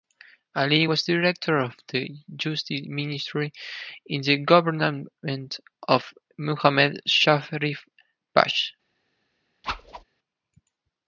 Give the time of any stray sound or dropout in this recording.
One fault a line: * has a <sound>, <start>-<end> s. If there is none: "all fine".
* has a whoosh, 9.6-10.0 s